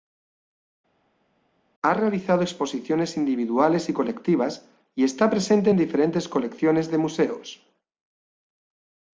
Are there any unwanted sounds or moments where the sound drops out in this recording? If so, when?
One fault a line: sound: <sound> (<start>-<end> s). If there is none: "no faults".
no faults